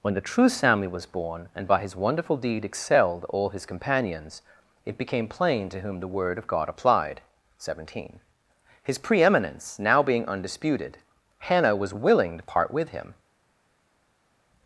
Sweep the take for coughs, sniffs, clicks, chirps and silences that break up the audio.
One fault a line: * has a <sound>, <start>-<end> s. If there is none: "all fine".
all fine